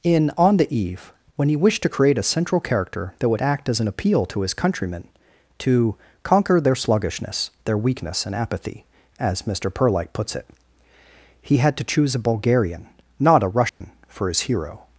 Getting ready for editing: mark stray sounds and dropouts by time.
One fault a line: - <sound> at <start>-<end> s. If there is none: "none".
- dropout at 13.7-13.8 s